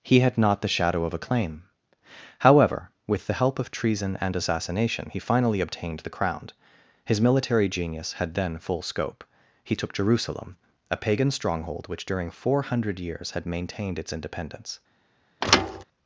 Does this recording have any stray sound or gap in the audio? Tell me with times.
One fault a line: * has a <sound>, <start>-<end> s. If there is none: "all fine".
* has a thud, 15.4-15.8 s